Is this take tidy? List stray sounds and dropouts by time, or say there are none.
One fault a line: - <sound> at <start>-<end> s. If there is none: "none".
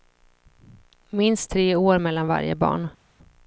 none